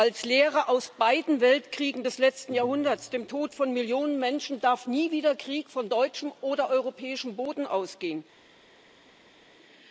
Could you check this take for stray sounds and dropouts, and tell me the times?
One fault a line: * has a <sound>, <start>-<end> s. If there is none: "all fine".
all fine